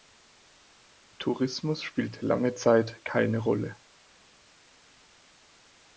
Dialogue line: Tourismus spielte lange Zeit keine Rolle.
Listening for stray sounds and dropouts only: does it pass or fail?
pass